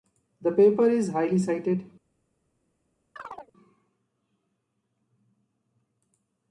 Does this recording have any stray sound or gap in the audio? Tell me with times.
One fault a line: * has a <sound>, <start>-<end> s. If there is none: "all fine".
* has a chirp, 3.2-3.5 s